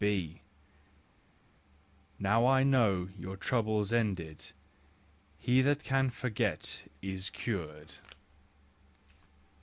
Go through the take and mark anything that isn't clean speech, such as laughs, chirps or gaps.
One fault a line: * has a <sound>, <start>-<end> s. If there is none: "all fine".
all fine